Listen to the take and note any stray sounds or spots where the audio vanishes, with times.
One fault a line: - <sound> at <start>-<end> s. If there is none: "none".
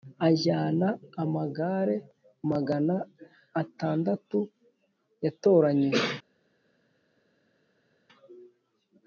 none